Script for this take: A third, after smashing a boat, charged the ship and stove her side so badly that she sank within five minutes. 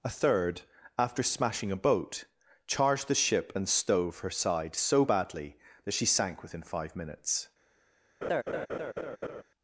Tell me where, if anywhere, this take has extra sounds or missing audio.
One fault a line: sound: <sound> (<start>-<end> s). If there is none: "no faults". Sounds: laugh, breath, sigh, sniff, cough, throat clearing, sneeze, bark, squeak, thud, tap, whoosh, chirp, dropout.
sound: laugh (8.2-9.4 s)